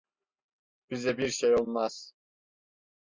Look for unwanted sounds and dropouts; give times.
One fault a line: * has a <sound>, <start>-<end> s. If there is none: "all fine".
all fine